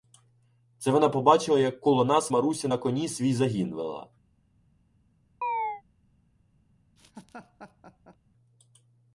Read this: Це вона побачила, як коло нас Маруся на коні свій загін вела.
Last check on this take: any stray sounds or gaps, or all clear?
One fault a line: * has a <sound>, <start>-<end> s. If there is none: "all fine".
* has a chirp, 5.4-5.8 s
* has a laugh, 7.0-8.2 s